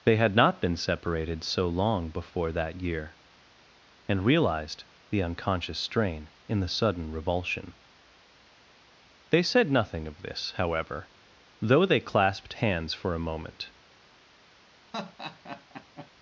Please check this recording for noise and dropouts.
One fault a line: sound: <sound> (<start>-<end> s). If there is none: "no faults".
sound: laugh (14.9-16.1 s)